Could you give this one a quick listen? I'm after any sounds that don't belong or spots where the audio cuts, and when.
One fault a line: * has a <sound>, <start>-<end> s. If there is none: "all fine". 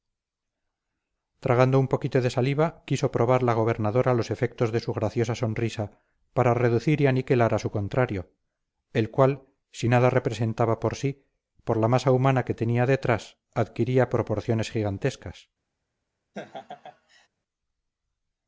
* has a laugh, 16.3-17.3 s